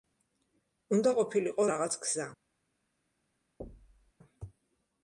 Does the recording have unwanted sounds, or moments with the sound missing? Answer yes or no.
yes